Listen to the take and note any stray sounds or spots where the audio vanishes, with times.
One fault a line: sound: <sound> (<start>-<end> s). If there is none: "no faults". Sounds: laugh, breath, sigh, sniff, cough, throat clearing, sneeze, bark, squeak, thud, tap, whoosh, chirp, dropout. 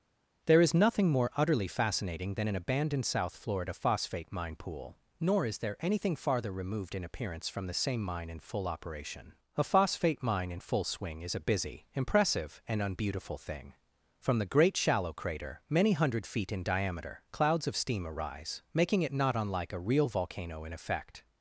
no faults